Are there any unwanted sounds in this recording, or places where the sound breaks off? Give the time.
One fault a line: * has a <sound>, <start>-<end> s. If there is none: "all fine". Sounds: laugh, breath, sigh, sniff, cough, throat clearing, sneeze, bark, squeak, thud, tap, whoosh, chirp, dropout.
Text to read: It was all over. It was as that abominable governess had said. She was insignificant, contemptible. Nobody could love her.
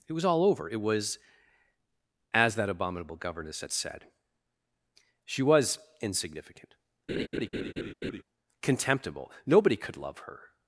* has a laugh, 7.1-8.2 s